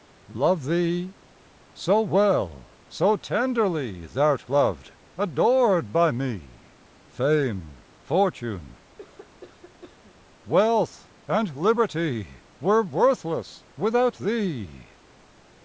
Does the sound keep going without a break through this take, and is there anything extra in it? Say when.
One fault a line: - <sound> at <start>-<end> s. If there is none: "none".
- cough at 9.0-10.3 s